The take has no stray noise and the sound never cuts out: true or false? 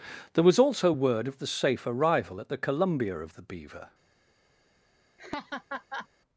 false